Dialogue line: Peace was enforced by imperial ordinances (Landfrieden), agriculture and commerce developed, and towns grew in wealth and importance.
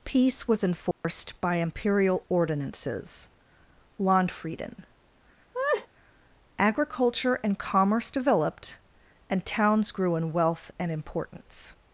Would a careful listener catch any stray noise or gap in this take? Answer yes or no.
yes